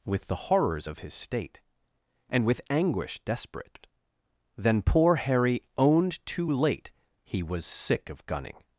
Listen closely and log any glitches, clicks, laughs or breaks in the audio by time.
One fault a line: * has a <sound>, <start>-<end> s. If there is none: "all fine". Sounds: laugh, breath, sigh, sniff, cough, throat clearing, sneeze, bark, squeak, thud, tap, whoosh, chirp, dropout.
all fine